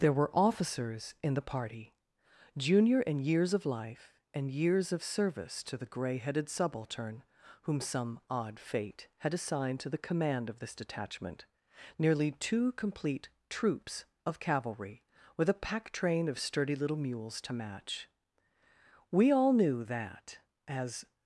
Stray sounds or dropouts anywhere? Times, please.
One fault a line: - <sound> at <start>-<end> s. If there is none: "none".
none